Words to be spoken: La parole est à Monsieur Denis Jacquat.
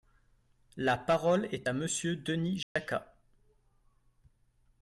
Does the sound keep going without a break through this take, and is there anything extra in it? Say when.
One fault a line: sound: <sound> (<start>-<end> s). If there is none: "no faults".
sound: dropout (2.6-2.8 s)